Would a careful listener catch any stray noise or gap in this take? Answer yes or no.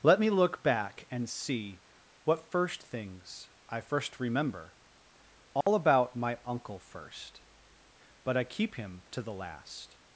yes